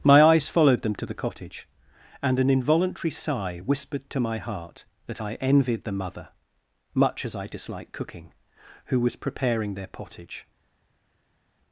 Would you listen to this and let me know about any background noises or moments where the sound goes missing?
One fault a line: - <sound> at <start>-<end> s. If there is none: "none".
none